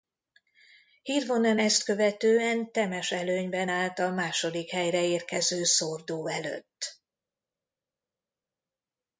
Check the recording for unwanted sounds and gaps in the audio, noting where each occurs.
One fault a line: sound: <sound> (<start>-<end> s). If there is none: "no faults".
no faults